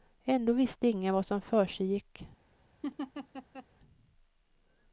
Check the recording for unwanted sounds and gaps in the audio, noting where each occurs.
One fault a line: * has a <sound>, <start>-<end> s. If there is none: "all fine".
* has a laugh, 2.8-3.7 s